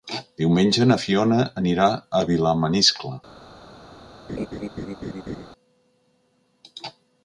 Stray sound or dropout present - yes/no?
yes